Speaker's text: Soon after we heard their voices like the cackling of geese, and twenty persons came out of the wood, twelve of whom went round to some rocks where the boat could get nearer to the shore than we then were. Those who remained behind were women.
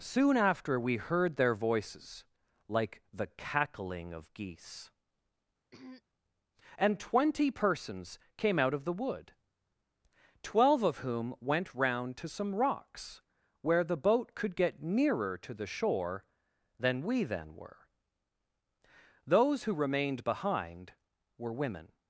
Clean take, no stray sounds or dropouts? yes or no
no